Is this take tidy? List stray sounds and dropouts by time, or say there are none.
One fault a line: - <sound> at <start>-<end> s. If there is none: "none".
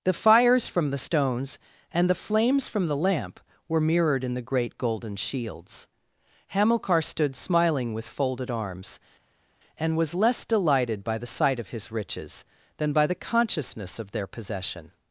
none